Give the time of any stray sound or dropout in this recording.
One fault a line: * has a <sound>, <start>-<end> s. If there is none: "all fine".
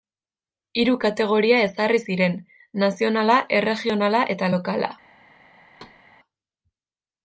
* has a thud, 5.8-6.0 s